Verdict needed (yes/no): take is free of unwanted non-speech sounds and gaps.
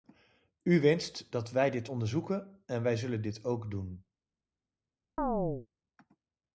no